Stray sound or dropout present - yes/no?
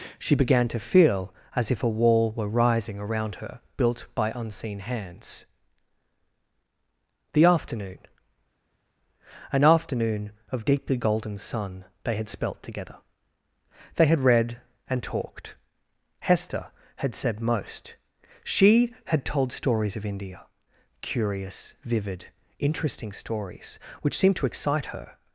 no